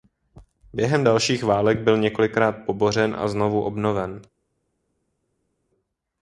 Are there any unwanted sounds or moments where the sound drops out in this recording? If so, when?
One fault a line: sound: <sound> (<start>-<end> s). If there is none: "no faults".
no faults